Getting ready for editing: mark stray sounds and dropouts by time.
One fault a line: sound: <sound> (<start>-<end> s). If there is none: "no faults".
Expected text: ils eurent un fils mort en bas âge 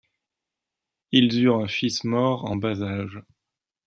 no faults